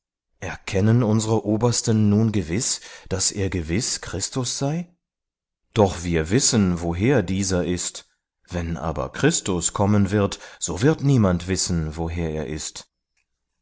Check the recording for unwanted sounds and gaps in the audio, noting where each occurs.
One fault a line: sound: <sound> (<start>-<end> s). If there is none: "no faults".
no faults